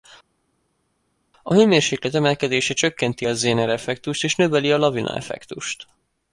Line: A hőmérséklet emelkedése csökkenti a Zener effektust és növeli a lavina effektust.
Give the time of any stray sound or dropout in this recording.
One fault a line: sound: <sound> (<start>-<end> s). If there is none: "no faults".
no faults